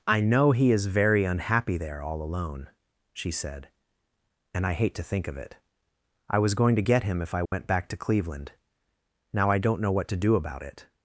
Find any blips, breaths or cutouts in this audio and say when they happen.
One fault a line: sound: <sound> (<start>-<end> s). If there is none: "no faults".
sound: dropout (7.5-7.5 s)